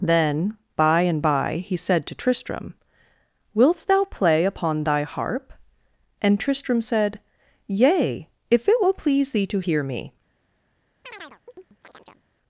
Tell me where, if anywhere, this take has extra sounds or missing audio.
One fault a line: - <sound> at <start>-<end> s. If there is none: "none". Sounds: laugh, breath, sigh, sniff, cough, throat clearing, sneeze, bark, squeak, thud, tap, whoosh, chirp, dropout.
- chirp at 11.0-12.2 s